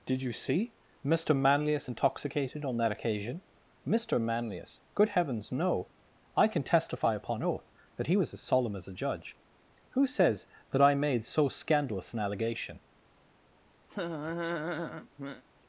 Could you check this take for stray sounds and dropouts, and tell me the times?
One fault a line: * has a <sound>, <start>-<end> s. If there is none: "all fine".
* has a laugh, 13.9-15.4 s